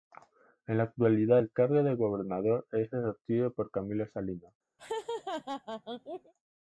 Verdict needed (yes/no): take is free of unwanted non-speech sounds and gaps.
no